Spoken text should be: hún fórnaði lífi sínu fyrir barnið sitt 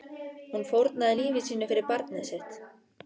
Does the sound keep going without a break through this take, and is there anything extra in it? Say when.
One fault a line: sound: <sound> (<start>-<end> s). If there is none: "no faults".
no faults